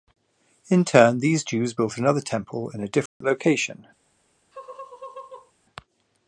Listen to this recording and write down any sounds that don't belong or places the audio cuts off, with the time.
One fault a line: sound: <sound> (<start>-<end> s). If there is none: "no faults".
sound: dropout (3.1-3.2 s)
sound: laugh (4.5-5.5 s)